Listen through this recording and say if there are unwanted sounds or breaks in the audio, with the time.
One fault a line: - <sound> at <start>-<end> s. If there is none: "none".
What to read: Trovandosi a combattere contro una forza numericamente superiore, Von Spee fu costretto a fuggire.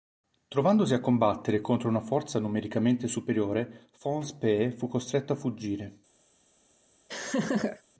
- laugh at 7.1-7.8 s